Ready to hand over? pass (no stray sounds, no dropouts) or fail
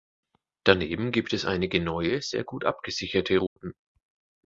fail